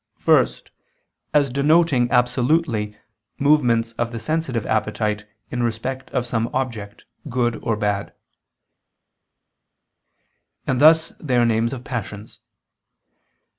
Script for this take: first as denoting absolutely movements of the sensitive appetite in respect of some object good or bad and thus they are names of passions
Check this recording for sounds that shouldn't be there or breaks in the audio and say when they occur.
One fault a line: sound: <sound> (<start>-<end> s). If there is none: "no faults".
no faults